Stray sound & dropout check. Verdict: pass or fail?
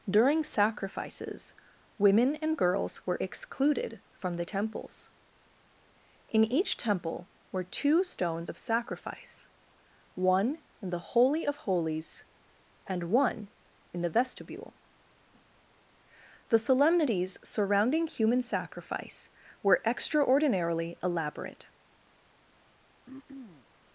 fail